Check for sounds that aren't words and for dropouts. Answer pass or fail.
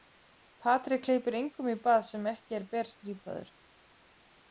pass